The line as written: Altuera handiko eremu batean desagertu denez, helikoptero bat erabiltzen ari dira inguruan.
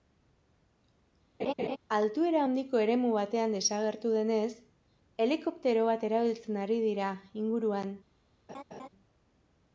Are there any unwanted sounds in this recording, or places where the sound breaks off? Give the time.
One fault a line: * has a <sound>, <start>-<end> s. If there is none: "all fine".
* has a laugh, 1.4-1.8 s
* has a laugh, 8.5-8.9 s